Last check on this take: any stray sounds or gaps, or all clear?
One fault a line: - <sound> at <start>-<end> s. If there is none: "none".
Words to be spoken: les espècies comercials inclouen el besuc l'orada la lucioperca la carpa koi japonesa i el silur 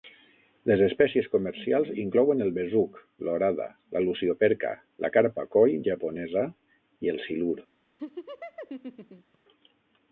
- laugh at 8.0-9.4 s